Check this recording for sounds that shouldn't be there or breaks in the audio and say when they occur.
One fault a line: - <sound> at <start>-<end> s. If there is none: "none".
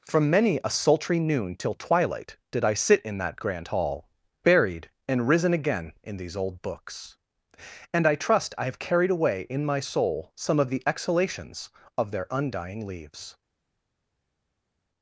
none